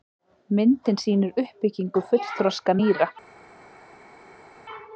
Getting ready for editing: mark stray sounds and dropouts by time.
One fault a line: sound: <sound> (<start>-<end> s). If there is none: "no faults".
no faults